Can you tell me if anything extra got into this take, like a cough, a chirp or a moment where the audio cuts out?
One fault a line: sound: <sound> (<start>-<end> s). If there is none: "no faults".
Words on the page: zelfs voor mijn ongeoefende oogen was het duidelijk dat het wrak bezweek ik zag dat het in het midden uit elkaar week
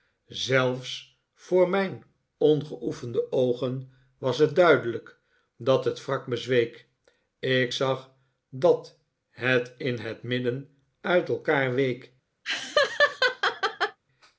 sound: laugh (12.4-14.0 s)